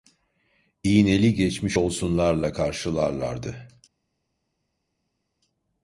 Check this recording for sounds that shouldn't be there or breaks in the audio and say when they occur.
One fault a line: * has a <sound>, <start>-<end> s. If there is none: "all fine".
all fine